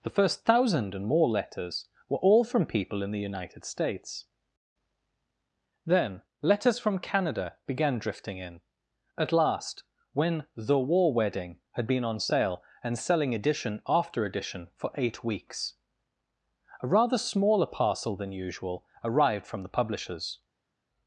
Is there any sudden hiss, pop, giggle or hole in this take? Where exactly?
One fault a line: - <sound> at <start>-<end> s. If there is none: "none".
none